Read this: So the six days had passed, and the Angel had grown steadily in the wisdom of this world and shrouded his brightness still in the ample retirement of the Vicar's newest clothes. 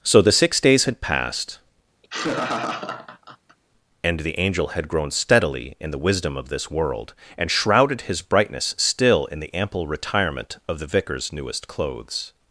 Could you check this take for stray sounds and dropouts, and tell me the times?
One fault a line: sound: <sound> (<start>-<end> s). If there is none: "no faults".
sound: laugh (2.0-3.6 s)